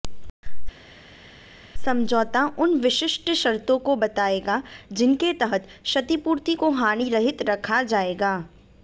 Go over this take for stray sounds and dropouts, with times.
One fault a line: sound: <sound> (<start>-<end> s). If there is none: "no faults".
no faults